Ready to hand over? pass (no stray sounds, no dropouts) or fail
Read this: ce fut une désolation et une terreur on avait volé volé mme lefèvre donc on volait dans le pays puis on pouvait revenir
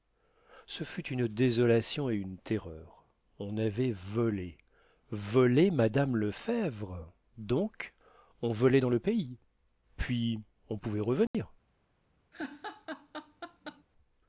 fail